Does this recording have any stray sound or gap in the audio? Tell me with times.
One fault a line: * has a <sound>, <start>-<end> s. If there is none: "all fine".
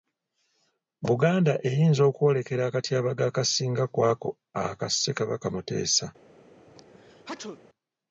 * has a sneeze, 6.7-7.6 s